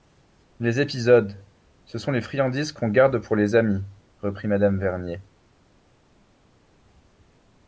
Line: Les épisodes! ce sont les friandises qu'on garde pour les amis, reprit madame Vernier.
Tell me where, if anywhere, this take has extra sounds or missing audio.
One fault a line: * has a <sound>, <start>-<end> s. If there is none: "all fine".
all fine